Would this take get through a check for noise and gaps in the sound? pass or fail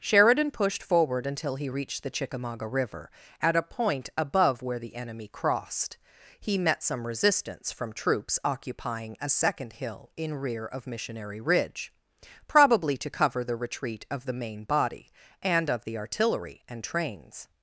pass